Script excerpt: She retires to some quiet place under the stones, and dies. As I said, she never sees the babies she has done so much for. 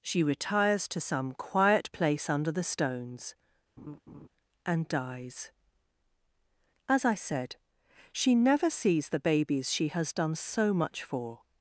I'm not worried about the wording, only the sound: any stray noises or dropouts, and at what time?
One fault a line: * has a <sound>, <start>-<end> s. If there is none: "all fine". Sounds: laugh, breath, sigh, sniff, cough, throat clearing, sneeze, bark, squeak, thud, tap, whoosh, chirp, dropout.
* has a laugh, 3.8-4.3 s